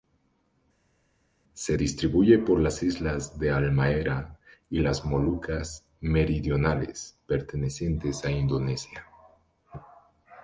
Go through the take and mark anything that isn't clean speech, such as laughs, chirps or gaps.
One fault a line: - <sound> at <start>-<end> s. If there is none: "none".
none